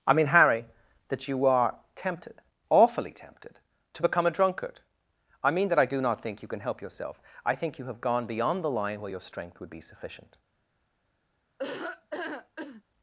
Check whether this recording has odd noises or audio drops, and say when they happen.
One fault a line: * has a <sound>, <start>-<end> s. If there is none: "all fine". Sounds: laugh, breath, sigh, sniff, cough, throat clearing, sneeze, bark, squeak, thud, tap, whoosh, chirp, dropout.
* has a laugh, 11.6-12.8 s